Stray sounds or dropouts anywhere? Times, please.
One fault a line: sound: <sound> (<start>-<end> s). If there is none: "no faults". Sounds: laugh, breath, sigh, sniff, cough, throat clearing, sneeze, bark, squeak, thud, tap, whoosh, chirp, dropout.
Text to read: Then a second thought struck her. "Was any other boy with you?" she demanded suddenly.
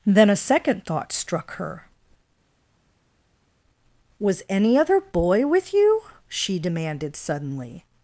no faults